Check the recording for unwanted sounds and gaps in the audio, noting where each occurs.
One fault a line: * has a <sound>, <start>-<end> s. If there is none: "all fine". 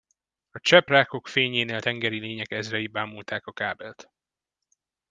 all fine